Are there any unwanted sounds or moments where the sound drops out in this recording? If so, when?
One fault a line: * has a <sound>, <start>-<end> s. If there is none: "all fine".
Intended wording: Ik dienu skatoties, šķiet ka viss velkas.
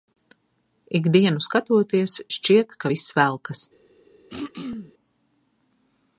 * has a throat clearing, 4.3-4.9 s